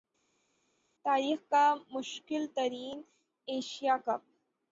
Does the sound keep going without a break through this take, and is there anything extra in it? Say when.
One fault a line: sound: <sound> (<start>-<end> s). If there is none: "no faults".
no faults